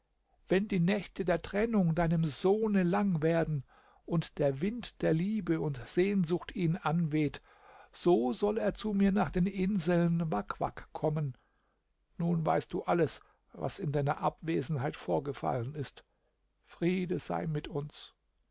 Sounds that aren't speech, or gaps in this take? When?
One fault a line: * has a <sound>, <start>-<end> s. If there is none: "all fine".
all fine